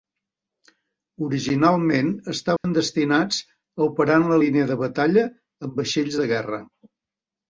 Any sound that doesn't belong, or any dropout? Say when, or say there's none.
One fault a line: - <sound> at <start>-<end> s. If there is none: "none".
- dropout at 2.6-2.6 s